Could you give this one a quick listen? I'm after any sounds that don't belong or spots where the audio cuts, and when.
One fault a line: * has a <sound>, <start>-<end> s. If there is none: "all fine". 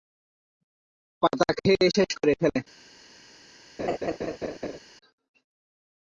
* has a laugh, 3.8-4.8 s